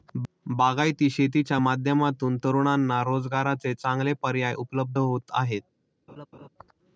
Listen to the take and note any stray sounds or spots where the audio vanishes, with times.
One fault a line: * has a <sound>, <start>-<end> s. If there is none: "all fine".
* has a laugh, 6.1-6.5 s